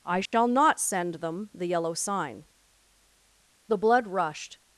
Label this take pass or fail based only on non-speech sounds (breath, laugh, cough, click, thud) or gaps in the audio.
fail